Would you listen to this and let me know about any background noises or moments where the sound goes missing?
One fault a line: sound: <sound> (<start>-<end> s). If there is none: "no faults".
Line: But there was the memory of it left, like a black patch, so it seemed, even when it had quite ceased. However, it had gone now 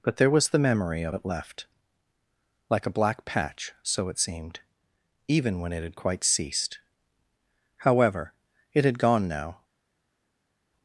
no faults